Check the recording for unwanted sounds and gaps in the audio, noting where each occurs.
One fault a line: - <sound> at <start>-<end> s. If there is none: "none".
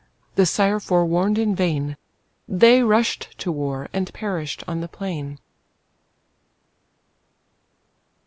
none